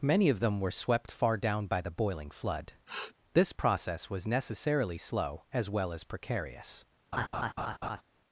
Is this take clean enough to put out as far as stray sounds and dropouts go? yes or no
no